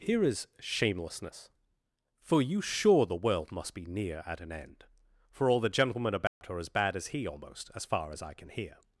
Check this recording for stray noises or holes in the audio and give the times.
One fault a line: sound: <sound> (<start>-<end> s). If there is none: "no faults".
sound: dropout (6.3-6.4 s)